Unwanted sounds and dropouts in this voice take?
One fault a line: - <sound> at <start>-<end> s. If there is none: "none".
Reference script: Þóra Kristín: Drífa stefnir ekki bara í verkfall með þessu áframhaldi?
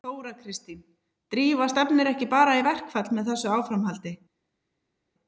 none